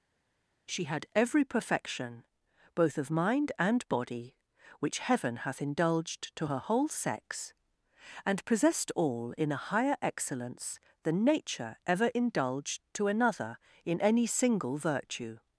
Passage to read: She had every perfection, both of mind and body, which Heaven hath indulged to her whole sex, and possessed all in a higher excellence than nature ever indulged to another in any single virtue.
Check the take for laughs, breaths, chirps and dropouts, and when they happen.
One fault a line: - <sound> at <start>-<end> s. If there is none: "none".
none